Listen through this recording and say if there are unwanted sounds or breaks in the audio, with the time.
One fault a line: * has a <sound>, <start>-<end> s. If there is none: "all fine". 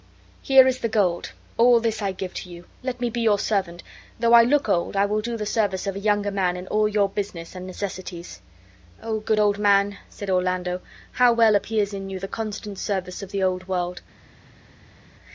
all fine